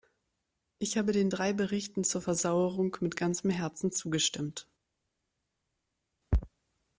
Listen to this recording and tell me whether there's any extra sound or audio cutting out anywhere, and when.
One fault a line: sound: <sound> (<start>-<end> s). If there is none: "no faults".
no faults